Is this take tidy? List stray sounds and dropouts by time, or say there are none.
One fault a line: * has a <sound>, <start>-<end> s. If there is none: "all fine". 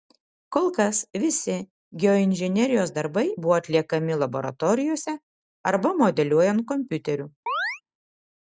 * has a chirp, 7.5-7.8 s